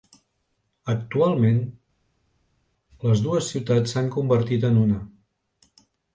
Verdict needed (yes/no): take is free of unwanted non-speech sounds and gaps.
yes